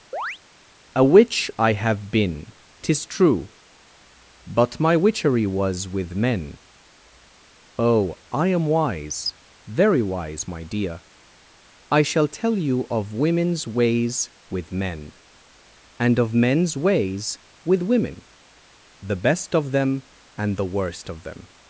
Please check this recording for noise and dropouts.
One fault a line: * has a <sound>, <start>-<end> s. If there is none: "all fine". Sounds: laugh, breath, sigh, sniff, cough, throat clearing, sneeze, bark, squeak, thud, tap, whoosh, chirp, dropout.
* has a chirp, 0.1-0.4 s